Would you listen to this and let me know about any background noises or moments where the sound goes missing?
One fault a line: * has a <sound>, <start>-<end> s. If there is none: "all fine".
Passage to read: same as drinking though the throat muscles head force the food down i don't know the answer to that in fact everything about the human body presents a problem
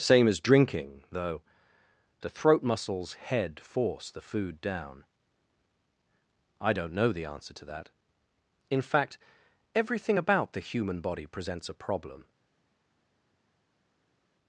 all fine